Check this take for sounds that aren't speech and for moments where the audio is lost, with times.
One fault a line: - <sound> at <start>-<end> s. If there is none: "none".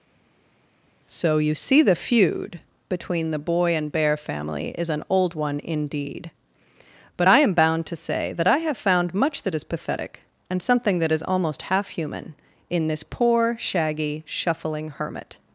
none